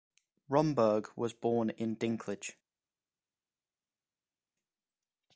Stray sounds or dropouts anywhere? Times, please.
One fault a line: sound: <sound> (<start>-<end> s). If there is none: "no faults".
no faults